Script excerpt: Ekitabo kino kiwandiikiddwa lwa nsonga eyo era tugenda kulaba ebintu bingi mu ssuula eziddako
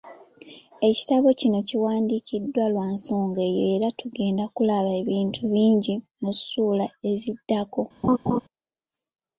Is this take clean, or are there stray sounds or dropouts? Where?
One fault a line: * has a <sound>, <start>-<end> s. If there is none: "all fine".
* has a laugh, 8.0-8.4 s